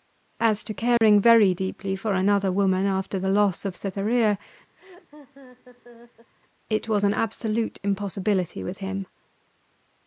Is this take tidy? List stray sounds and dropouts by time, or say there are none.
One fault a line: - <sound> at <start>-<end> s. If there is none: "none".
- dropout at 1.0-1.0 s
- laugh at 4.8-6.3 s